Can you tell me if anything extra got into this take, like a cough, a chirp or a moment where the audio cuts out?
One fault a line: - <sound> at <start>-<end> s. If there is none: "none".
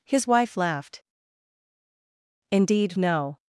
none